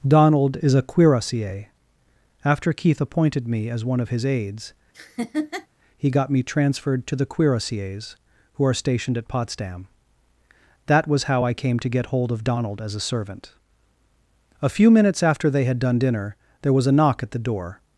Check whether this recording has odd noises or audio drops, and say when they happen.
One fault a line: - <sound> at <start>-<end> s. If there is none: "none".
- laugh at 4.9-5.7 s